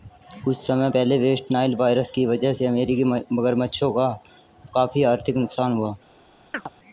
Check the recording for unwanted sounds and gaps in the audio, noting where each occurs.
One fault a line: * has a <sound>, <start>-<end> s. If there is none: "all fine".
* has a chirp, 6.5-6.7 s